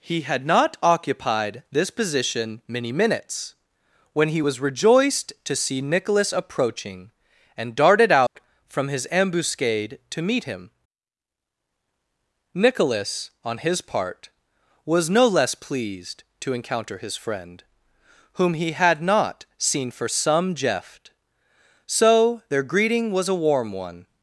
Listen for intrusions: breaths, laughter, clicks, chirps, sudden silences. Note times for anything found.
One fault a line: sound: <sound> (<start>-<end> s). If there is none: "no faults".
sound: dropout (8.3-8.4 s)